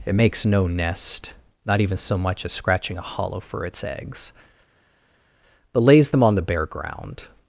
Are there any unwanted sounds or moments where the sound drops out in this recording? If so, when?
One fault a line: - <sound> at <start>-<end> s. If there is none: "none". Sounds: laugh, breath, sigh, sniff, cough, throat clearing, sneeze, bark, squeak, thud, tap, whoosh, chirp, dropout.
none